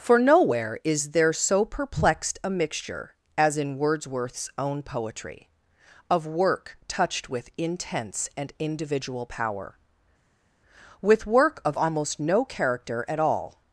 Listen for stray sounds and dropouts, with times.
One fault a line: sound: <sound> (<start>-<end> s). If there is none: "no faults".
no faults